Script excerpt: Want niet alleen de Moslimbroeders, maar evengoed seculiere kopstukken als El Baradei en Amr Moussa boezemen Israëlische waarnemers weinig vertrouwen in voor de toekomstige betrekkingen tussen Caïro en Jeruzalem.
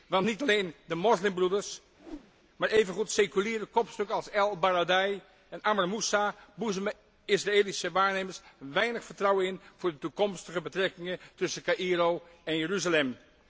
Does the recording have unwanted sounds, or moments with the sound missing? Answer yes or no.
yes